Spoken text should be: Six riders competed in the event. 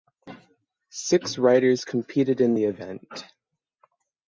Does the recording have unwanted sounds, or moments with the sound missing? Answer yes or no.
no